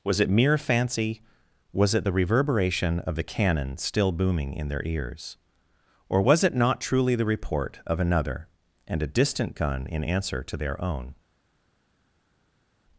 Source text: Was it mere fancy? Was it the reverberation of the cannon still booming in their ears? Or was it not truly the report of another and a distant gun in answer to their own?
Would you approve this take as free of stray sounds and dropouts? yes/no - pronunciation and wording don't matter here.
yes